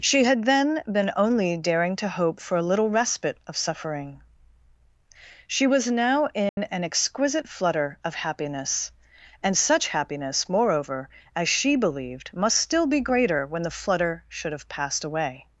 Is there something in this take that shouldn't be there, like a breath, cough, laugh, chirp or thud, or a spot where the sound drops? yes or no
yes